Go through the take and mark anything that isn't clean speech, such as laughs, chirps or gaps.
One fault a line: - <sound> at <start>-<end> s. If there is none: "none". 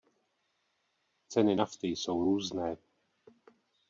none